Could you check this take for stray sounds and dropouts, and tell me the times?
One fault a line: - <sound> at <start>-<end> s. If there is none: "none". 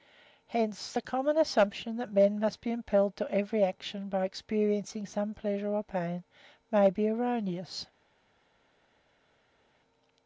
none